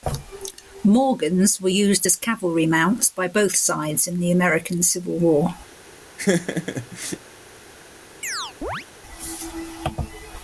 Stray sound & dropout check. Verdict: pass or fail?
fail